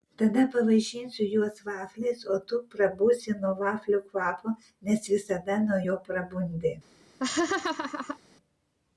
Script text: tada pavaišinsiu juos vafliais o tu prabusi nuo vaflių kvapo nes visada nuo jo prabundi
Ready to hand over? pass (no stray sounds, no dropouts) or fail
fail